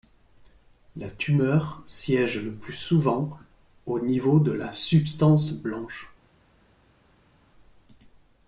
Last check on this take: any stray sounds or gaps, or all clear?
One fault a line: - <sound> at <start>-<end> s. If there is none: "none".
none